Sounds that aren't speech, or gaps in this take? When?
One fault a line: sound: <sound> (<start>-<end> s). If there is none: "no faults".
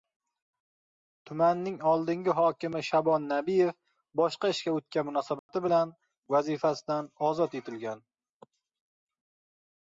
sound: dropout (5.4-5.5 s)